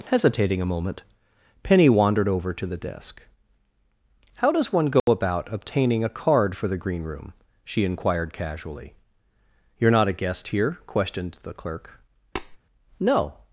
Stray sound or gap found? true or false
true